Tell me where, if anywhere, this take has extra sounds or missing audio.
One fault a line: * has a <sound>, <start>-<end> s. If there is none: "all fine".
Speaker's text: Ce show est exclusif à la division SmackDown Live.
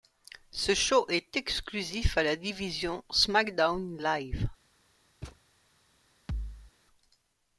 * has a thud, 5.2-5.4 s
* has a thud, 6.3-6.7 s